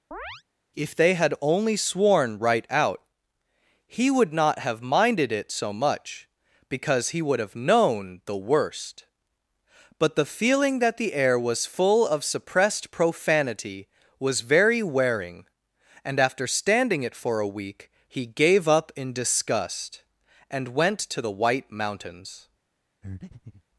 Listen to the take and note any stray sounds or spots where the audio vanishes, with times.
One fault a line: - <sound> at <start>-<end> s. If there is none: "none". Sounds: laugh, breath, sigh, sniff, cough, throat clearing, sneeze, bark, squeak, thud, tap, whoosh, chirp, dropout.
- chirp at 0.1-0.4 s
- breath at 23.0-23.6 s